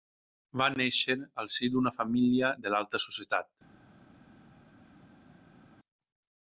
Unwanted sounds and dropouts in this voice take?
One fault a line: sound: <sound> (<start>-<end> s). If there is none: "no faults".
no faults